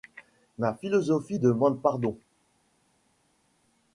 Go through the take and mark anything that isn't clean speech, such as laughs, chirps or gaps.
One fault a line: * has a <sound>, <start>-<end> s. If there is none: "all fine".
all fine